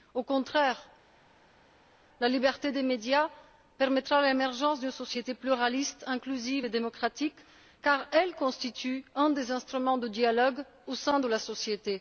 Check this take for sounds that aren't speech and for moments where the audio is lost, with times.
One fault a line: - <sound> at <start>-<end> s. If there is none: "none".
none